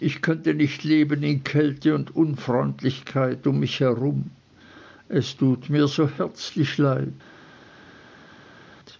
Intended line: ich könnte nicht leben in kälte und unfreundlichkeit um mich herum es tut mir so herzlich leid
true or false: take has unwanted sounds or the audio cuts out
false